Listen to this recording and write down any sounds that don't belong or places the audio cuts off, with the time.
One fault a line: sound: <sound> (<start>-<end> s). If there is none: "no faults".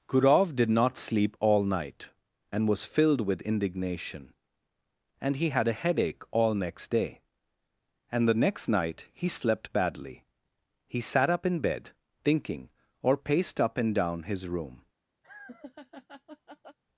sound: laugh (15.2-16.8 s)